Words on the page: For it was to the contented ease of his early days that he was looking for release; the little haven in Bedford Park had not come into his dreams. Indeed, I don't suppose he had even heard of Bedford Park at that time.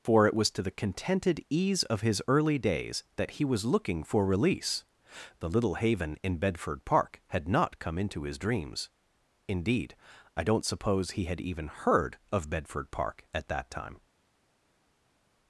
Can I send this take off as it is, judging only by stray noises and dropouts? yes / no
yes